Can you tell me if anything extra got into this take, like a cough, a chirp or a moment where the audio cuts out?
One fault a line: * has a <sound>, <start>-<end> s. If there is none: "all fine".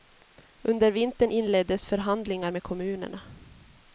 all fine